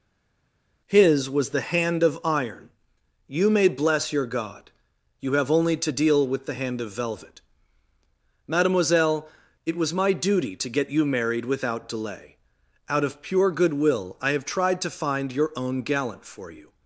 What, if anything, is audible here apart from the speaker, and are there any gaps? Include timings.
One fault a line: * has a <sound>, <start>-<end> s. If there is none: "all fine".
all fine